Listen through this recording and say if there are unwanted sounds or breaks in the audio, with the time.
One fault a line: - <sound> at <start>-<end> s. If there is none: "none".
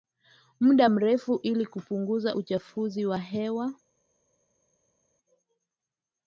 none